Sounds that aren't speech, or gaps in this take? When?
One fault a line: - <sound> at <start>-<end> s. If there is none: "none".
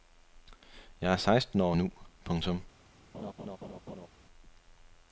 - laugh at 3.1-4.1 s